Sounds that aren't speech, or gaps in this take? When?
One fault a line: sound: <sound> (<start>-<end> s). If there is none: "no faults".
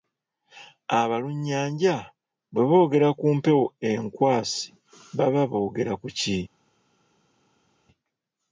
no faults